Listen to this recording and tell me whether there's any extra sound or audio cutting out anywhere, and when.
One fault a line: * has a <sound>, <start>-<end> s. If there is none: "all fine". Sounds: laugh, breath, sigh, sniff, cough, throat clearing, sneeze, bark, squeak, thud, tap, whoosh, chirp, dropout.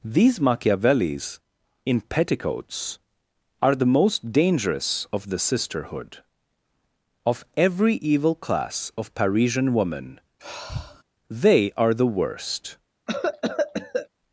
* has a sigh, 10.4-11.0 s
* has a cough, 13.1-14.1 s